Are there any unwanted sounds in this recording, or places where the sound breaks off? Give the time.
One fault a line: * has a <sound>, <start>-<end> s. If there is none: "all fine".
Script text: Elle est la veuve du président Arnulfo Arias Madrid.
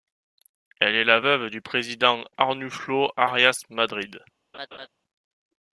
* has a laugh, 4.5-4.9 s